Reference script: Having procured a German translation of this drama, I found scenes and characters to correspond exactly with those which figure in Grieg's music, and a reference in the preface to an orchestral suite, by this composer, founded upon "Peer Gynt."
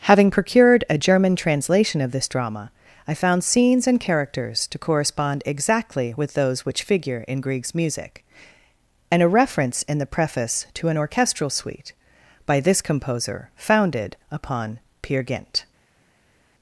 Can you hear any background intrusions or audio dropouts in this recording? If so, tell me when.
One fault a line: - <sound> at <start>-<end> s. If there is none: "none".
none